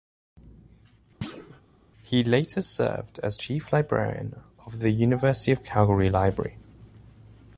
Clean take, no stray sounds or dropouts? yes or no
no